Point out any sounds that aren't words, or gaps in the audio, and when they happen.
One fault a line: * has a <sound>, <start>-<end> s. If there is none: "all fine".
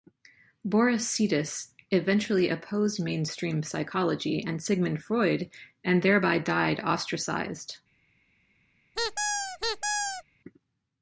* has a squeak, 9.0-10.2 s